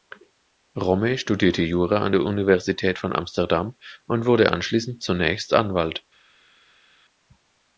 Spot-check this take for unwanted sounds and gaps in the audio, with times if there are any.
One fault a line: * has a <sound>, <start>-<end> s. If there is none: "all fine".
all fine